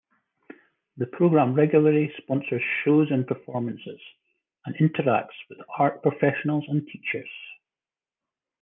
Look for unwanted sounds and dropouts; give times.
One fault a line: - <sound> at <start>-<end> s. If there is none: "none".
none